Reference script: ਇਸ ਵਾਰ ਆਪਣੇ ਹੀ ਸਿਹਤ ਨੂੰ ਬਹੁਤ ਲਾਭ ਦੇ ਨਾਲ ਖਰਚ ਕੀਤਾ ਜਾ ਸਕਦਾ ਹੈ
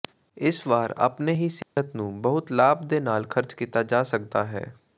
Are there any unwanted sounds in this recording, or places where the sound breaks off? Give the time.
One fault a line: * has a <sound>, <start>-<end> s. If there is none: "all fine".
* has a dropout, 1.6-1.8 s